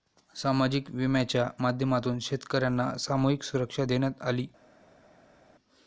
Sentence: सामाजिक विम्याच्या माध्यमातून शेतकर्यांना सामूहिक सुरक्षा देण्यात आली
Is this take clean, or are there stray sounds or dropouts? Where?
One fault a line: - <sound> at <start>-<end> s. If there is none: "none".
none